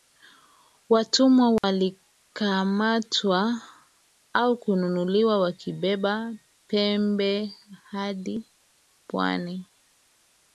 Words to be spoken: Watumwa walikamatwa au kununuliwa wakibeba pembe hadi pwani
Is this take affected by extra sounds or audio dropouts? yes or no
yes